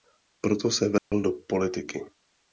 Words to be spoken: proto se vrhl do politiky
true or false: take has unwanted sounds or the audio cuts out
true